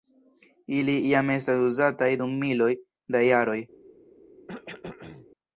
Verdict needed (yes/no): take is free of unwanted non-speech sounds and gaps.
no